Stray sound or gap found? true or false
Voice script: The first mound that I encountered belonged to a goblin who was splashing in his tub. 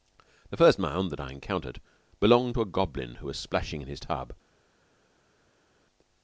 false